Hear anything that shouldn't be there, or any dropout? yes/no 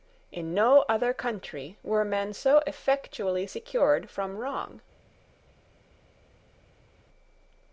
no